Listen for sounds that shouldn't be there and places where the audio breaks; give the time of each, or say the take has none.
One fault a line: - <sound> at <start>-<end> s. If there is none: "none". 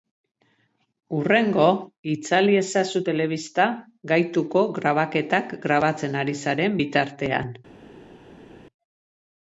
none